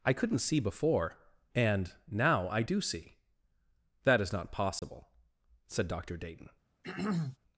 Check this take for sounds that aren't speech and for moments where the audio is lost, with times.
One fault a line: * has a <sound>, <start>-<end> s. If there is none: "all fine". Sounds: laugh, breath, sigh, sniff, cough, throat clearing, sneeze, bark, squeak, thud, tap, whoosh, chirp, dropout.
* has a dropout, 4.8-4.8 s
* has a throat clearing, 6.8-7.4 s